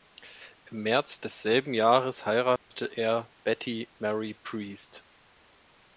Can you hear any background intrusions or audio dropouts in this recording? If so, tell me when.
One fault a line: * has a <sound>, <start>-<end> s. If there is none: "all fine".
* has a dropout, 2.6-2.7 s